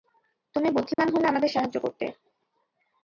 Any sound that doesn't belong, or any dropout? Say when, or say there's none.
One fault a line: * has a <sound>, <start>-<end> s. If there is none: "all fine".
* has a dropout, 0.9-1.0 s